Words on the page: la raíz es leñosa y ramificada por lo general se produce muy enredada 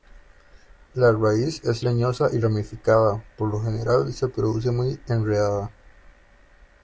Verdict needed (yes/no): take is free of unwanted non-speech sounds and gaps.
yes